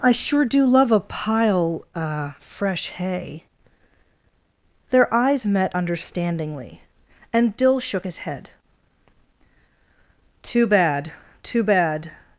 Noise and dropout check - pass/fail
pass